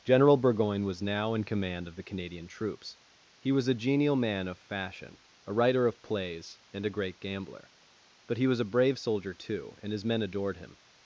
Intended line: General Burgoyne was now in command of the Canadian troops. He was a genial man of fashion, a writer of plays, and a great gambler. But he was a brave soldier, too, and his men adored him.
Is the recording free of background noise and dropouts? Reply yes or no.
yes